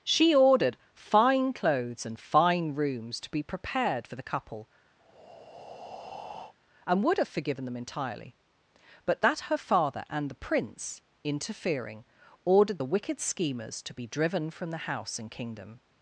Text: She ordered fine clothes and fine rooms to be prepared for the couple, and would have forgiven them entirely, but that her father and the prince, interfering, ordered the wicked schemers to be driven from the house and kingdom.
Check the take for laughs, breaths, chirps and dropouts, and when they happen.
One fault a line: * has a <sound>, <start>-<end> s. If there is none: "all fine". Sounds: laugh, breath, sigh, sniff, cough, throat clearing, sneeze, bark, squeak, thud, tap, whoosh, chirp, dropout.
* has a breath, 5.0-6.5 s